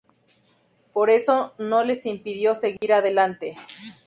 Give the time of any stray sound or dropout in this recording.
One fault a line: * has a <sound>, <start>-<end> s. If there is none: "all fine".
* has a dropout, 2.8-2.8 s